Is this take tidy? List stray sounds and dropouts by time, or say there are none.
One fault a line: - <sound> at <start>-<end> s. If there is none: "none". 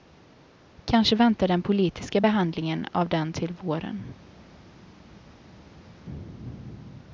none